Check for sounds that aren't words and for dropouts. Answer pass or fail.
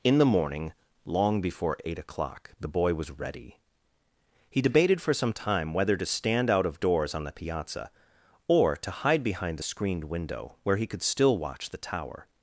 pass